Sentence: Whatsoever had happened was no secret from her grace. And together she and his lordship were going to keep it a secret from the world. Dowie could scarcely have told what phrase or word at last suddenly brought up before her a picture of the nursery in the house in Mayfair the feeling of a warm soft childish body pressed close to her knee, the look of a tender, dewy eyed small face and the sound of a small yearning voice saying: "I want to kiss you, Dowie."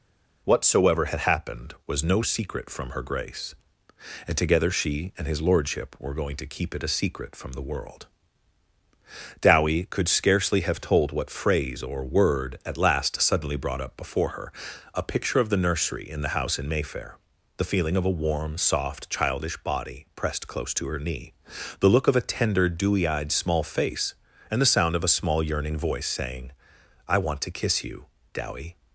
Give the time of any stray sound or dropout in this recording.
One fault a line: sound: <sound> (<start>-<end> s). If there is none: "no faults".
no faults